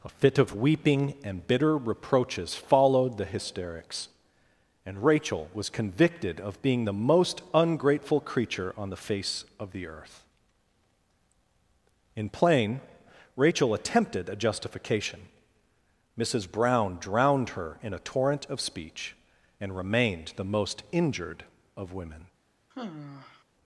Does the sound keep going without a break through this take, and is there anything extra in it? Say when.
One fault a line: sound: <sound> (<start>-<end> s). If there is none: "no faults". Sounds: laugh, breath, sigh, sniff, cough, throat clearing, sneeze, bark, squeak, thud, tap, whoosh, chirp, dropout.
sound: sigh (22.7-23.4 s)